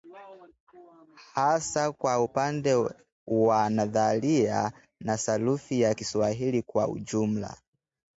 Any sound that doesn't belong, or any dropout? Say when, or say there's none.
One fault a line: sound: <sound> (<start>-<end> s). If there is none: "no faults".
no faults